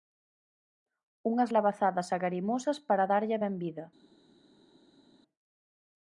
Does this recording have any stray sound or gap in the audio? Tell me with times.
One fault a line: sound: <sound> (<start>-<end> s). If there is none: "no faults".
no faults